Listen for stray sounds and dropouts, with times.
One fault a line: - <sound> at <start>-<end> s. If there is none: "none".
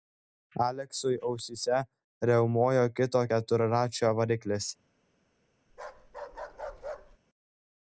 - bark at 5.7-7.2 s